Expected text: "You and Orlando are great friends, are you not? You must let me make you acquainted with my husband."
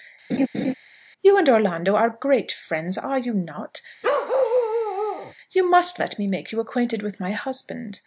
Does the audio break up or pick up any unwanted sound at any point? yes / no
yes